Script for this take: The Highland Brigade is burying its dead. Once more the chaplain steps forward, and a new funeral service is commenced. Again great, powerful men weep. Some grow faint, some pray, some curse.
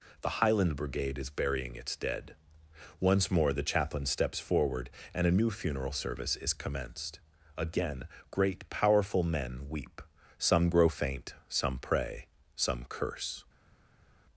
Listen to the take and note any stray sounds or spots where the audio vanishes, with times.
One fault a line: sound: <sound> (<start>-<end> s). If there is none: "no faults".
no faults